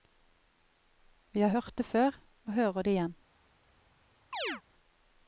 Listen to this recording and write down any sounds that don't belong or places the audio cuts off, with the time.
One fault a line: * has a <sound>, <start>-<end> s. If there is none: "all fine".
* has a chirp, 4.3-4.6 s